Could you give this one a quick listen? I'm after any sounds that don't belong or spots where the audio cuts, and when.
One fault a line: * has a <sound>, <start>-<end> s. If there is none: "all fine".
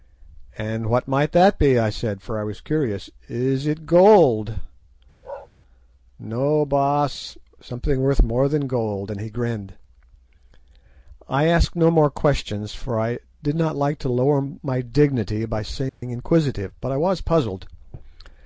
* has a bark, 5.2-5.5 s
* has a dropout, 15.9-16.0 s